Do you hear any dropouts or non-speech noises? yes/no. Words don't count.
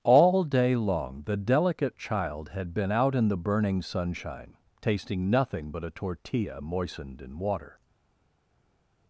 no